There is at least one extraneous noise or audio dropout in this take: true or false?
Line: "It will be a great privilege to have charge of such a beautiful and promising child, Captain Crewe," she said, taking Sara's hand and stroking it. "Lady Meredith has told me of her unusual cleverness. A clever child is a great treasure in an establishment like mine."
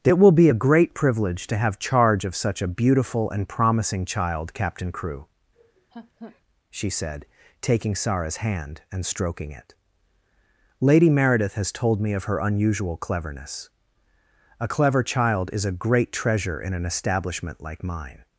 true